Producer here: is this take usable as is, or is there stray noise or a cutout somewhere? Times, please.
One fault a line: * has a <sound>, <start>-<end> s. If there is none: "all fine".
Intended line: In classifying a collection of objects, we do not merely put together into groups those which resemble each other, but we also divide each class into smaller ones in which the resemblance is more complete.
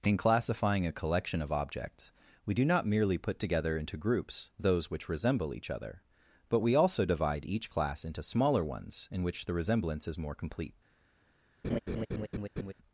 * has a laugh, 11.6-12.7 s